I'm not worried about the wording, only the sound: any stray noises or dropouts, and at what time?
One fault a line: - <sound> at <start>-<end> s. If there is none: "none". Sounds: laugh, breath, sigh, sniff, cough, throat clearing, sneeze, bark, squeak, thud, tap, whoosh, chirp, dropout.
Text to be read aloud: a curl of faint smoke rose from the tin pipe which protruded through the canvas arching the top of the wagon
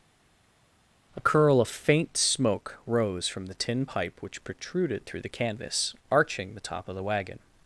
none